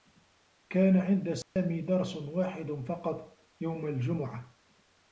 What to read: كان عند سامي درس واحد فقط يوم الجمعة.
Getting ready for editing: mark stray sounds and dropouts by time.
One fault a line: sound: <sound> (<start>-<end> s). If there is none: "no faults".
sound: dropout (1.4-1.6 s)